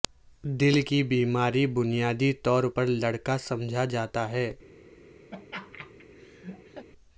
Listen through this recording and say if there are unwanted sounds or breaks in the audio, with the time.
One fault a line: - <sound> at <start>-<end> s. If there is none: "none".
- laugh at 5.3-6.9 s